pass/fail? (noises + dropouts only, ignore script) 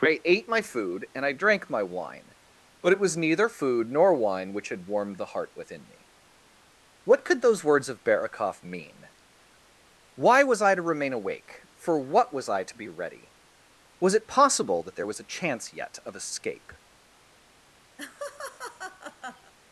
fail